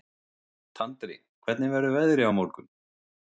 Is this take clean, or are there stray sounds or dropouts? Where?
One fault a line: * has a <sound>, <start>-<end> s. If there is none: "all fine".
all fine